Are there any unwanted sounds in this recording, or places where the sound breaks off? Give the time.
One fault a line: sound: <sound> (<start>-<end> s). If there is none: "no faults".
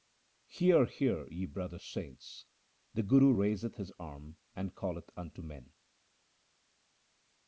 no faults